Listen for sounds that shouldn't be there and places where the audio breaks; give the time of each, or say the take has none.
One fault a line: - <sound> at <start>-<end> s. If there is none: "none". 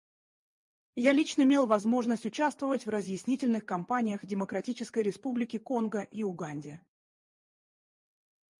none